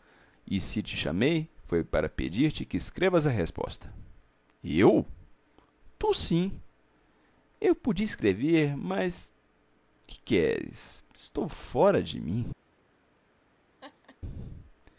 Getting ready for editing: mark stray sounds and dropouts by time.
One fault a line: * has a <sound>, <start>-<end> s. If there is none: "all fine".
* has a laugh, 13.8-14.2 s